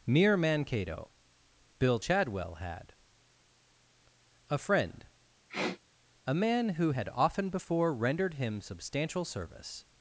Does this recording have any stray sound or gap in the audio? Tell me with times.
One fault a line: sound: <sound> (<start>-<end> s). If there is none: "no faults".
sound: sniff (5.5-5.8 s)